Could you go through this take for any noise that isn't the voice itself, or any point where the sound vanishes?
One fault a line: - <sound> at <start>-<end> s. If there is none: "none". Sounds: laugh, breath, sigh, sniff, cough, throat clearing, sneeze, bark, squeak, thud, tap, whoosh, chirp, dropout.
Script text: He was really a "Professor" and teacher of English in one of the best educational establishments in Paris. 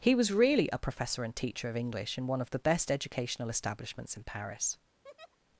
- laugh at 5.0-5.4 s